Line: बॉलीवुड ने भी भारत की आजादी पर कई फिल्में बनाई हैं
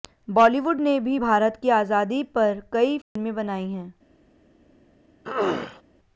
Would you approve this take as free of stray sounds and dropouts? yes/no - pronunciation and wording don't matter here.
no